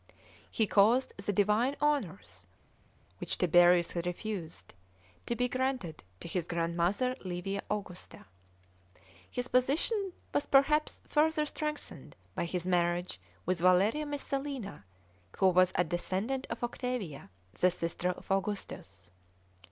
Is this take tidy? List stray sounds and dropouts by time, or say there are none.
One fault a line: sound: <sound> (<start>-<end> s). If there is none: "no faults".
no faults